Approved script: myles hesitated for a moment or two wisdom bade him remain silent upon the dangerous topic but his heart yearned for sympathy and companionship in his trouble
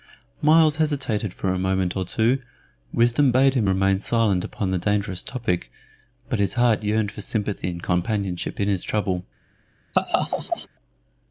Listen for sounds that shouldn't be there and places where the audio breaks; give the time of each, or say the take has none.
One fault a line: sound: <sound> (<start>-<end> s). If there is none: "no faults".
sound: laugh (9.9-10.7 s)